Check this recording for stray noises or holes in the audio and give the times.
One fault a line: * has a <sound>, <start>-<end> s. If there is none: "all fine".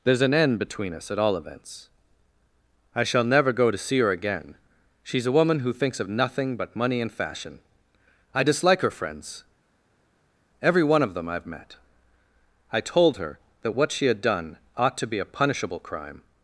all fine